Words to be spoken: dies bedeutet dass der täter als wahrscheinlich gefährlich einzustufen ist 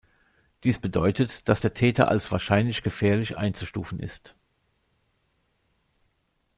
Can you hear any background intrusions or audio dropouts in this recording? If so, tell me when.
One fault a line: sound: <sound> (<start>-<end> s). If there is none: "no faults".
no faults